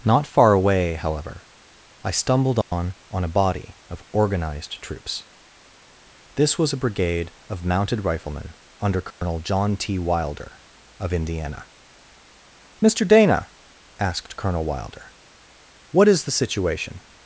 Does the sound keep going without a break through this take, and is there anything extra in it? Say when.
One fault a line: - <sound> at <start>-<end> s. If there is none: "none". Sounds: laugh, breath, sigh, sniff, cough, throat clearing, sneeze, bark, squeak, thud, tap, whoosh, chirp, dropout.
- dropout at 2.6-2.7 s
- dropout at 9.1-9.2 s